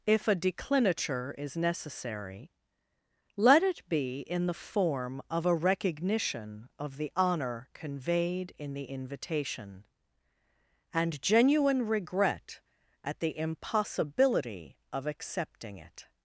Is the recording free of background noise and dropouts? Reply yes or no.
yes